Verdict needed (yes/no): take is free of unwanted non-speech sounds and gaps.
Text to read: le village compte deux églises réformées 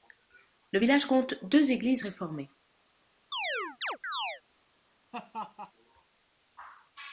no